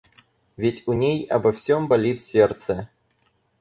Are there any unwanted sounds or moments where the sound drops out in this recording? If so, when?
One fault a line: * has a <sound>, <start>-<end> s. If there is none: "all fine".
all fine